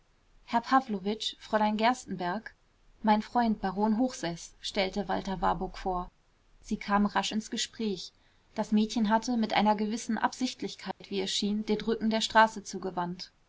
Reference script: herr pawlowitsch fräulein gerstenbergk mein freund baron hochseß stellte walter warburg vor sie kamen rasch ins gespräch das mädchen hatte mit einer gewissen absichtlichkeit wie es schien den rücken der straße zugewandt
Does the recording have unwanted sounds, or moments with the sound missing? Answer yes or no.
yes